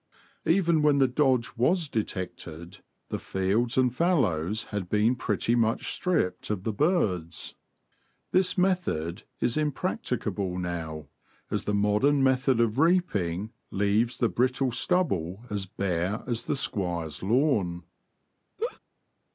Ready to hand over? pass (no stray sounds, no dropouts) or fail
fail